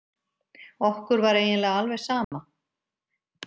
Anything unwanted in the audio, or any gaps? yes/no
yes